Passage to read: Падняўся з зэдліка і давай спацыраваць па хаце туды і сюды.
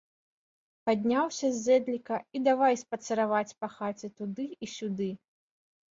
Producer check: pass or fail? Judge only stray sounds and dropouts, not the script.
pass